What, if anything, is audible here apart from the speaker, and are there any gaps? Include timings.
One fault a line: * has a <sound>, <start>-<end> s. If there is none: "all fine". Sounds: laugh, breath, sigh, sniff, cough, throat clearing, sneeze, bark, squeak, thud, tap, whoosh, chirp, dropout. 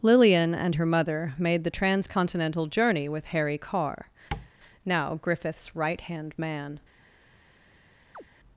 * has a tap, 4.3-4.5 s
* has a chirp, 8.1-8.2 s